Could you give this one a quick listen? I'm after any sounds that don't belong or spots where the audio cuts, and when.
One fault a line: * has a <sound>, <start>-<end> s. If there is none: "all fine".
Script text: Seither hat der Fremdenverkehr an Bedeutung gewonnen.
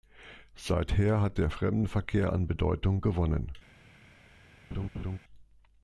* has a laugh, 4.7-5.2 s